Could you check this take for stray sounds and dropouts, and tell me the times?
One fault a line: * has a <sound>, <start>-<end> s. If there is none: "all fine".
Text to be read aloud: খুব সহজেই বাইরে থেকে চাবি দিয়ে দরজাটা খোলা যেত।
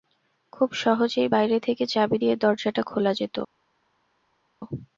all fine